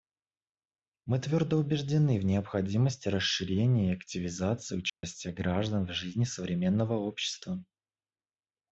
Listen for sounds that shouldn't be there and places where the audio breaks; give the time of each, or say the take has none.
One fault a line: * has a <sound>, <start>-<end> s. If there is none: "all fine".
* has a dropout, 4.9-5.0 s